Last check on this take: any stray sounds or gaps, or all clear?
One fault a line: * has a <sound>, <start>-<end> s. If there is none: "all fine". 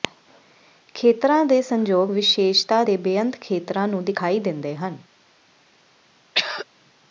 * has a throat clearing, 6.3-6.7 s